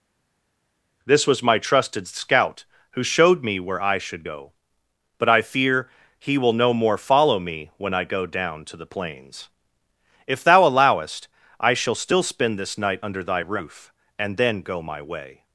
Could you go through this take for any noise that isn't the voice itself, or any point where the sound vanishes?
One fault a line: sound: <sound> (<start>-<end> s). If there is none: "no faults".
no faults